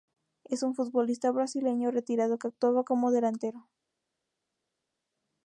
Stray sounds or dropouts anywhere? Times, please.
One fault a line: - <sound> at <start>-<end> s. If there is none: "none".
none